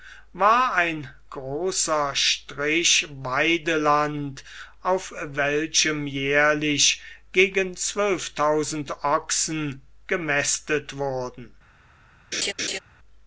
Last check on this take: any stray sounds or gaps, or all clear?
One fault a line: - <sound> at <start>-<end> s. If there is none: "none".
- laugh at 12.3-12.8 s